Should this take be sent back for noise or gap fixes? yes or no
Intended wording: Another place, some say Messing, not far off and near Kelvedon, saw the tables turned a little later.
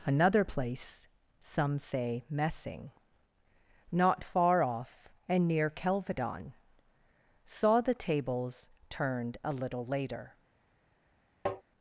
yes